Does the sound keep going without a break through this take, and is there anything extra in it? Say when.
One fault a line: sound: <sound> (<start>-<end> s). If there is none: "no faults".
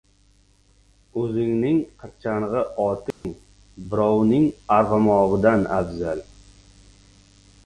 sound: dropout (3.1-3.2 s)